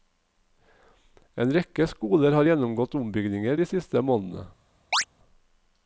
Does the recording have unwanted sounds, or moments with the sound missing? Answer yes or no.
yes